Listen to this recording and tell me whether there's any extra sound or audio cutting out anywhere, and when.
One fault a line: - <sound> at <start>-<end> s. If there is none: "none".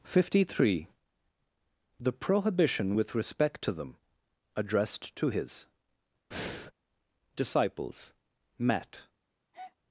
- breath at 6.3-6.7 s
- breath at 9.5-9.8 s